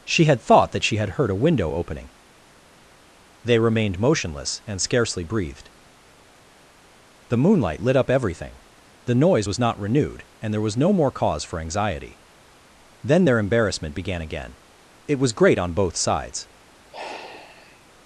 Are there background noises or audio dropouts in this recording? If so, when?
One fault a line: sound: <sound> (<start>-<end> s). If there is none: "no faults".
sound: sigh (16.9-17.9 s)